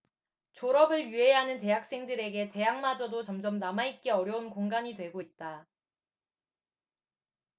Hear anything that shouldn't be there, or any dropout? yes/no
no